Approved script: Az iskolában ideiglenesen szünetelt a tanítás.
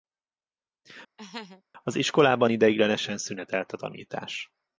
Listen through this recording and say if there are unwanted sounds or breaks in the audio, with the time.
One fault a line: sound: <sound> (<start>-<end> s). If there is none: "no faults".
sound: laugh (1.2-1.6 s)